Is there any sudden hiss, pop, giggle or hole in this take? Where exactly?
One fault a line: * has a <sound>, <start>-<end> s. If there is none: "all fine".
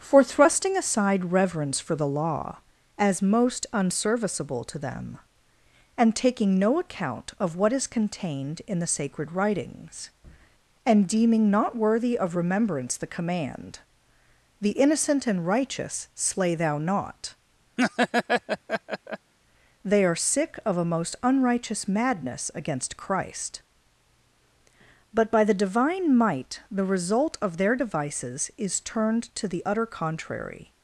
* has a laugh, 17.8-19.3 s